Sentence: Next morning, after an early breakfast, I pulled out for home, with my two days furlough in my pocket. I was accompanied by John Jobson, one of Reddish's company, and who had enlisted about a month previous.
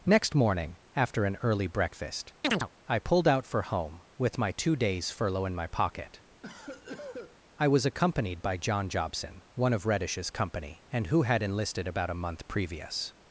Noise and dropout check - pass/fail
fail